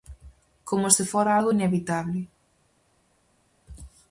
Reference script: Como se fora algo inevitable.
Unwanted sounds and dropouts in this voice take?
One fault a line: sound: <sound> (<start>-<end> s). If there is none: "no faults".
no faults